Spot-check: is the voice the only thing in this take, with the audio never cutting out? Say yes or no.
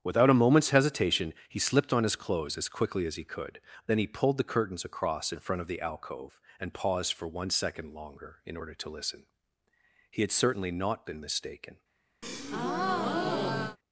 no